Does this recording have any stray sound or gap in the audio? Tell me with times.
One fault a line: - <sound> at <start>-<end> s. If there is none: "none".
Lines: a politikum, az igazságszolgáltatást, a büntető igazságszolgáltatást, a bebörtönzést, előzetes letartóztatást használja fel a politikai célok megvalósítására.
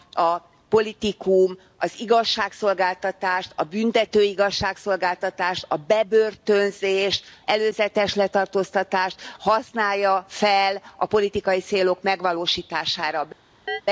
- chirp at 13.7-13.8 s